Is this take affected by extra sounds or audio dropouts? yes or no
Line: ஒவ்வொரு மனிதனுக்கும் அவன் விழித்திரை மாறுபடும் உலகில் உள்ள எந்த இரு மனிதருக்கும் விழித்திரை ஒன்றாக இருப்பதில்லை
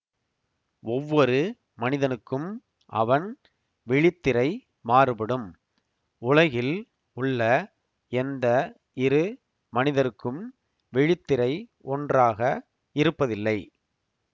no